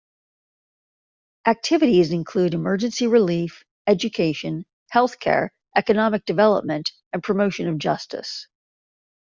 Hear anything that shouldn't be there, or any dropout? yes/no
no